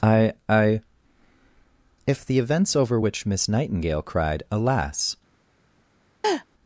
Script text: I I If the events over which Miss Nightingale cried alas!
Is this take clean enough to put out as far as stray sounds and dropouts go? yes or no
no